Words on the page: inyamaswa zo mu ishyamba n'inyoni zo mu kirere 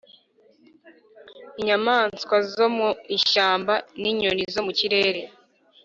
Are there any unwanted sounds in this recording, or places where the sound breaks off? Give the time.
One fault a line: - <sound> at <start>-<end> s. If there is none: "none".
none